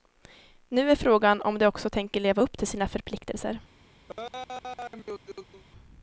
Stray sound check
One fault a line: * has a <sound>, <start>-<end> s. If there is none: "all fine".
* has a laugh, 4.1-5.6 s